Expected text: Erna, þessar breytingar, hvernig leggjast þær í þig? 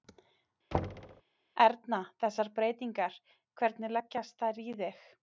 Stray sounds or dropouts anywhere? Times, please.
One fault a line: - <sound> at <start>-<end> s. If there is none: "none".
- thud at 0.7-1.2 s